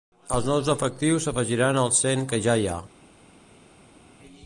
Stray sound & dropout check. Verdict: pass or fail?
pass